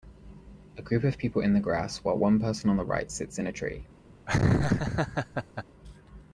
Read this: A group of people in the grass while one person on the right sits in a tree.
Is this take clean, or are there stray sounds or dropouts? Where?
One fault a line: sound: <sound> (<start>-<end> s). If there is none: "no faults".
sound: laugh (4.3-5.6 s)